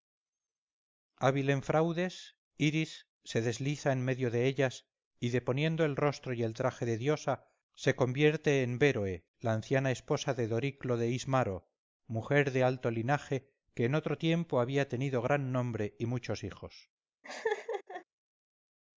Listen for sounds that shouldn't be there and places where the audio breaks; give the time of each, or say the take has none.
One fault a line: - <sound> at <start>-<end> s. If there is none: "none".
- laugh at 17.2-18.0 s